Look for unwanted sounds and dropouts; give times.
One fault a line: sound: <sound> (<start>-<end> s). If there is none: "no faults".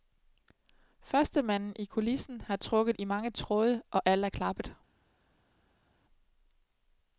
no faults